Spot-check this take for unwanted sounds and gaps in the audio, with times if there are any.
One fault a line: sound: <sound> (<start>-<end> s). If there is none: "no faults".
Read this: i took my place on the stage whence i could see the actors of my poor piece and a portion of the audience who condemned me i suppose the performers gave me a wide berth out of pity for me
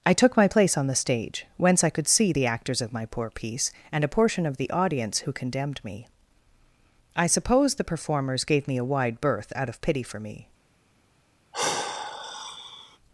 sound: sigh (11.5-13.0 s)